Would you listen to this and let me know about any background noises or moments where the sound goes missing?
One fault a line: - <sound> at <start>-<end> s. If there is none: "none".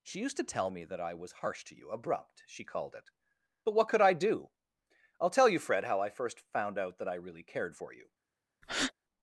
- breath at 8.6-8.9 s